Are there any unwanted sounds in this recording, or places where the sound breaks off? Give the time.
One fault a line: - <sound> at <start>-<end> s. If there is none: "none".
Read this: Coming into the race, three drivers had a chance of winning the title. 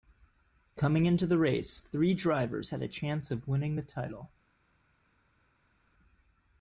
none